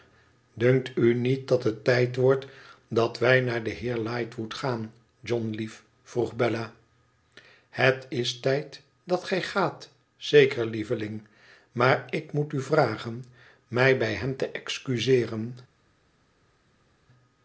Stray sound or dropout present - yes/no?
no